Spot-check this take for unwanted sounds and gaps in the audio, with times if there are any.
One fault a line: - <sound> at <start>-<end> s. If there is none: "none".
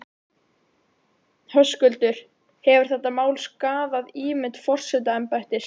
none